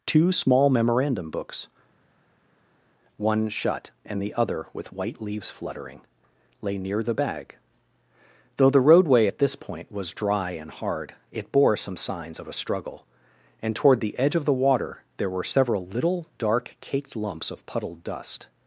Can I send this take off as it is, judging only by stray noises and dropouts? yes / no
yes